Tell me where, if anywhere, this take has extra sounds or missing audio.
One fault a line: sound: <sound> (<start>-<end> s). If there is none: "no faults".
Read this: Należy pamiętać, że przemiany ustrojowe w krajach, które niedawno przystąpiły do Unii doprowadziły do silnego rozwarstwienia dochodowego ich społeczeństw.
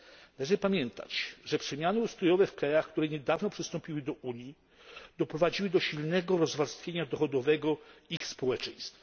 sound: dropout (8.2-8.2 s)